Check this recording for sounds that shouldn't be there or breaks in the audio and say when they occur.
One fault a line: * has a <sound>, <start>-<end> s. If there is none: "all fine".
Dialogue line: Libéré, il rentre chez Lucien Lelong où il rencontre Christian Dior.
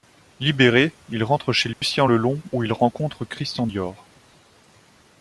* has a dropout, 1.7-1.8 s